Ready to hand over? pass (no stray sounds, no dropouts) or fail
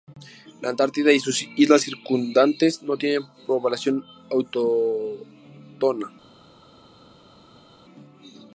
pass